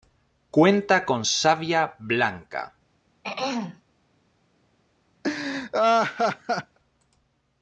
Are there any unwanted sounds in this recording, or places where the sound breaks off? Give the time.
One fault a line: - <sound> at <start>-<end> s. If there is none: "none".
- throat clearing at 3.2-3.8 s
- laugh at 5.2-6.8 s